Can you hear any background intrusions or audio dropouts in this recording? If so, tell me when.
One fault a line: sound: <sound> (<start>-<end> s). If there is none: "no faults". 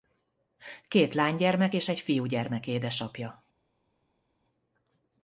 no faults